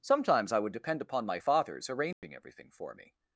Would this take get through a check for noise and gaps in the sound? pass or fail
fail